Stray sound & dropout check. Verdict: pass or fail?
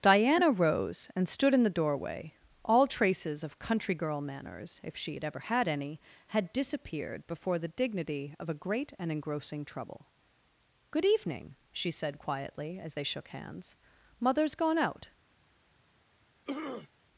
fail